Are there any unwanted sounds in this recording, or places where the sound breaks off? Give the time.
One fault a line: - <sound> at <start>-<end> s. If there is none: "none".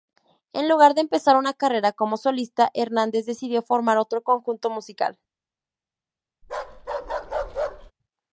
- bark at 6.4-7.9 s